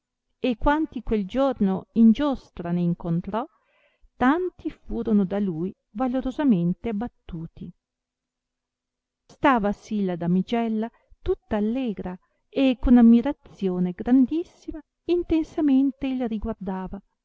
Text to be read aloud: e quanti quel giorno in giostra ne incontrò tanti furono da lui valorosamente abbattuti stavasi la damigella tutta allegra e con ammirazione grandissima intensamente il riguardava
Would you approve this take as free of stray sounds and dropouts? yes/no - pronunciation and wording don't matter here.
yes